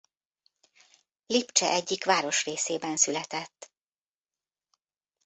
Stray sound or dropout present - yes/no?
no